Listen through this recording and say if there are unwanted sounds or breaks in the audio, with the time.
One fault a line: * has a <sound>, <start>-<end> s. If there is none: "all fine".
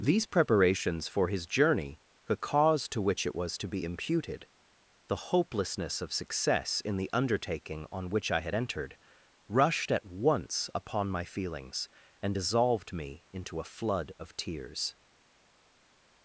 all fine